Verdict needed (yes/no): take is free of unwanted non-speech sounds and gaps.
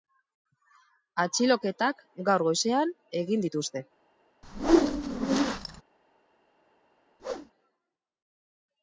no